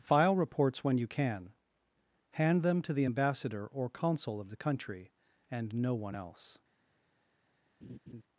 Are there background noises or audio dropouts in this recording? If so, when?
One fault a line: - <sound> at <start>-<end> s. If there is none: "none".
- laugh at 7.8-8.2 s